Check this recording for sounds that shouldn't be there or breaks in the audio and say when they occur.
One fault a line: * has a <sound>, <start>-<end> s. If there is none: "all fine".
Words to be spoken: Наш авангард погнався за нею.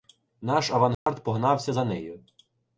* has a dropout, 0.9-1.1 s